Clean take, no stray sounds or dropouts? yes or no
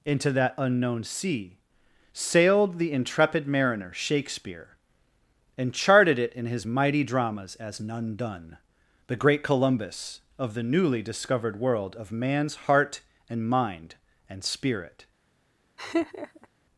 no